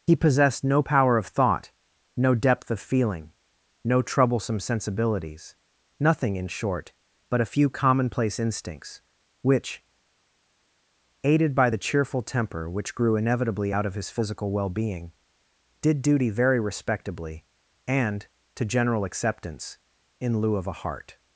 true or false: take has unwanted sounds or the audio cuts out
false